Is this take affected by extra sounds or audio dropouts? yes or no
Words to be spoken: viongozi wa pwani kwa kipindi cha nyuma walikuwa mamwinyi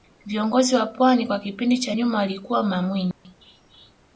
yes